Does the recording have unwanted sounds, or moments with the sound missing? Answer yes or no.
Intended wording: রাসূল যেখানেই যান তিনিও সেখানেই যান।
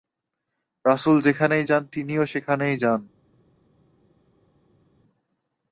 no